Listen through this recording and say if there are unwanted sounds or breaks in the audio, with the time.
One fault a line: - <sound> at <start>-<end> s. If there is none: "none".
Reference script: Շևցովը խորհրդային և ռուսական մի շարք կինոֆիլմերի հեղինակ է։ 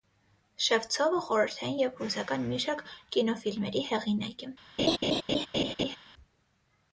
- laugh at 4.8-6.0 s